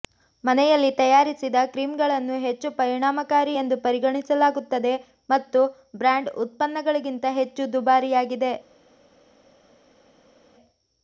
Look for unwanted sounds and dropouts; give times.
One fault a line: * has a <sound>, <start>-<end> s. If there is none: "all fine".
all fine